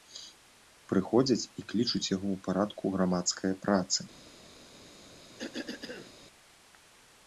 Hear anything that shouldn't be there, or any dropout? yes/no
yes